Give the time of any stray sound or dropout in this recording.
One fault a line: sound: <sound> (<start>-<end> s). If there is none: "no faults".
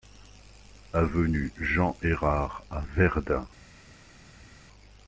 no faults